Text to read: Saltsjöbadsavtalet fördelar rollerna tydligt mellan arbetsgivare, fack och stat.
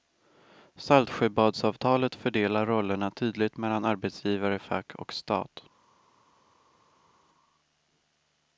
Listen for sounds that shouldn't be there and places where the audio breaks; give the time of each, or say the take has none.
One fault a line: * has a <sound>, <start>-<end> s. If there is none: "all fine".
all fine